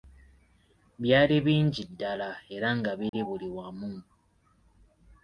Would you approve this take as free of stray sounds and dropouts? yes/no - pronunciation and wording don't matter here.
no